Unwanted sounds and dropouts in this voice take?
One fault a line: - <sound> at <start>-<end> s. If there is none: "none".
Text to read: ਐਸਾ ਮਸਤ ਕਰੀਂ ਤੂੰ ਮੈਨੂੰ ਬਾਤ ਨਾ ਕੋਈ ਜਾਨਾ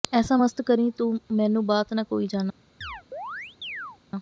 - chirp at 2.8-4.0 s